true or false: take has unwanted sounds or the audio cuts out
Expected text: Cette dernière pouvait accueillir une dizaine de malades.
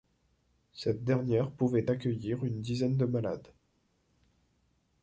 false